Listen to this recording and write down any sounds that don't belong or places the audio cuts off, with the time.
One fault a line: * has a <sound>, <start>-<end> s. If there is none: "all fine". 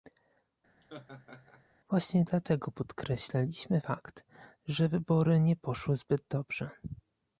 * has a laugh, 0.8-1.6 s